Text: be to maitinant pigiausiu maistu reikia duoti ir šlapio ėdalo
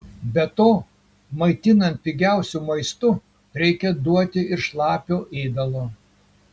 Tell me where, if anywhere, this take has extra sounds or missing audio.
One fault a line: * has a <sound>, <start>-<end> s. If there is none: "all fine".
all fine